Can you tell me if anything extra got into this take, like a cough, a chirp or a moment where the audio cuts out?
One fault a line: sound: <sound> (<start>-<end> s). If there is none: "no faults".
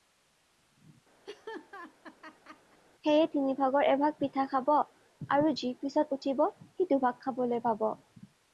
sound: laugh (1.2-2.8 s)